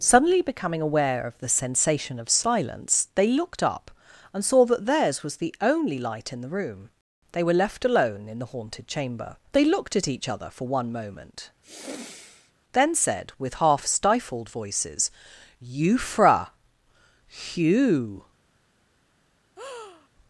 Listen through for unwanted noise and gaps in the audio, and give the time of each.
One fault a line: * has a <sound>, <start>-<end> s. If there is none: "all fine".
* has a sigh, 11.6-12.5 s
* has a breath, 19.6-20.1 s